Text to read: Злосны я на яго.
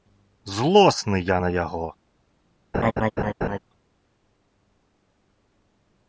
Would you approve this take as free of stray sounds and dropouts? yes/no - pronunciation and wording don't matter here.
no